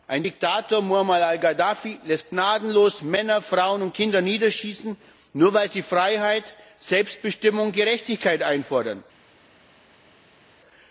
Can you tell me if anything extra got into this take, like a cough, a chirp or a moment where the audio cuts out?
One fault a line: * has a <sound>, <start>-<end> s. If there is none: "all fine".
all fine